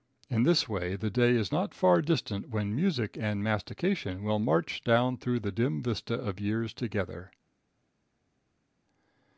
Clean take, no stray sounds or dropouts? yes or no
yes